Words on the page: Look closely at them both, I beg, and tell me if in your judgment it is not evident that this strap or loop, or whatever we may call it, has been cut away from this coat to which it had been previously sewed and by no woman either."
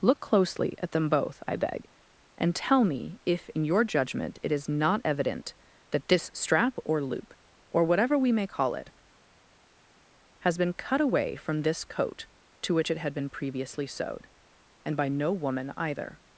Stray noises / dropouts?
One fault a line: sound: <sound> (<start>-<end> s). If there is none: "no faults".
no faults